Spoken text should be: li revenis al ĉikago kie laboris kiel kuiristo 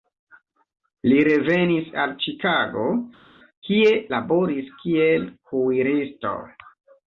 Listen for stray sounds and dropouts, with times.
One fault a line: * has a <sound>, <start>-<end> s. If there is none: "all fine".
all fine